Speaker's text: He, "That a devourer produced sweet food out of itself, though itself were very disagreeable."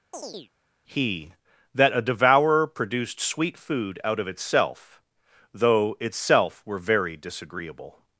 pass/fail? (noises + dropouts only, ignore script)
fail